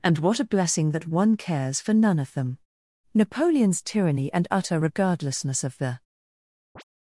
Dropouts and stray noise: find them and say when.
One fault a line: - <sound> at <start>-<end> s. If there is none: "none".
- chirp at 6.8-6.8 s